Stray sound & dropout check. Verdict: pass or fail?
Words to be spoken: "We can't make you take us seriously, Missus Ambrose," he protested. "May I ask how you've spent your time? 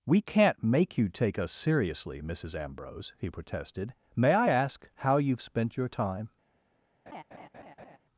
fail